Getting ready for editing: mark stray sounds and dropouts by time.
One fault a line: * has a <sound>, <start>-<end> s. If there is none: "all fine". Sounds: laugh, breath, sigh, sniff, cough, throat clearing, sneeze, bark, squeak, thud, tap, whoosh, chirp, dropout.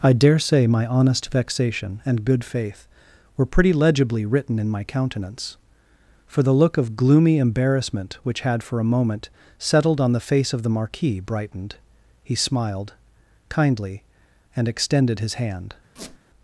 * has a squeak, 16.0-16.2 s